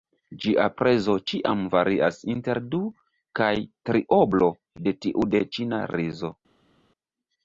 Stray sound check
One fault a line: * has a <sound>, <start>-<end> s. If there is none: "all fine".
all fine